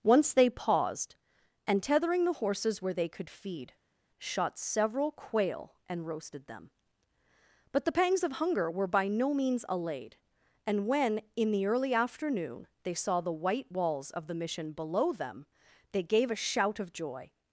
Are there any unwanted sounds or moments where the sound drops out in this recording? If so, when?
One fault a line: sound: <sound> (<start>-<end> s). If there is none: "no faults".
no faults